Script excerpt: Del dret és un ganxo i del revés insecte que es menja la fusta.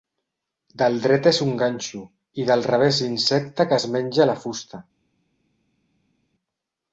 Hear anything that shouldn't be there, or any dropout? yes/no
no